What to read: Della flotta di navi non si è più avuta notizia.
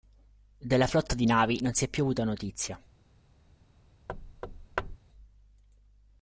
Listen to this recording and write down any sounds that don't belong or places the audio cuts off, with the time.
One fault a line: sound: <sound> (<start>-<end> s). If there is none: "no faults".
sound: thud (4.1-5.0 s)